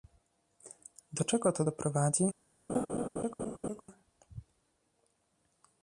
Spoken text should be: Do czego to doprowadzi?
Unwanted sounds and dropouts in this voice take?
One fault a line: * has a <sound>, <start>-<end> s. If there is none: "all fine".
* has a laugh, 2.7-3.8 s